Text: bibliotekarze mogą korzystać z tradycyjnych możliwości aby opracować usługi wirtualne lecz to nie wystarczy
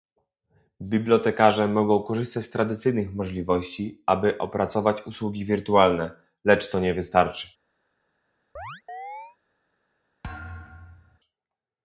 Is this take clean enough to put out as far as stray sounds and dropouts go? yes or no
no